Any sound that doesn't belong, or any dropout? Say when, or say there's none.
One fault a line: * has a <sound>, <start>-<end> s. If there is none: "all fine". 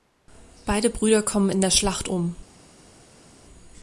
all fine